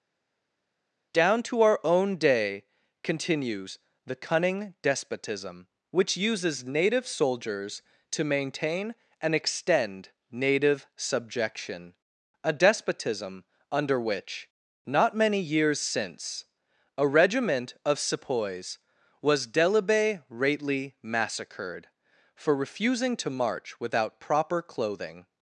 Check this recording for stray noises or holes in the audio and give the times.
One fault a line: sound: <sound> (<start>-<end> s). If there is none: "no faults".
no faults